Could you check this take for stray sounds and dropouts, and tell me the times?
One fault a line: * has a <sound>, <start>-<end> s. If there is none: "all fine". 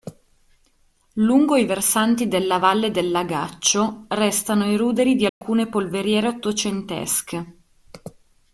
* has a dropout, 5.3-5.4 s